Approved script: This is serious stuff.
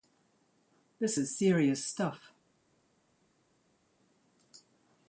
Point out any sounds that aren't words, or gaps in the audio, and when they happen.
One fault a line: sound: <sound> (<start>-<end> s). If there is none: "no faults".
no faults